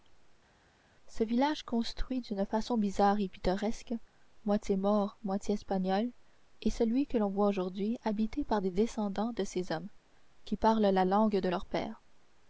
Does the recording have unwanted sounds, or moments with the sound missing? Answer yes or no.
no